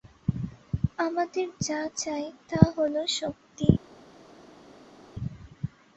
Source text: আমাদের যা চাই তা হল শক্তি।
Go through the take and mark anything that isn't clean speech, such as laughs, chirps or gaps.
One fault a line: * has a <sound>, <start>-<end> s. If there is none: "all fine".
all fine